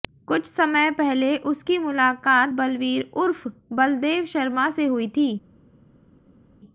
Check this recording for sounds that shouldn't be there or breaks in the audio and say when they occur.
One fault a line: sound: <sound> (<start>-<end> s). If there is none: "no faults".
no faults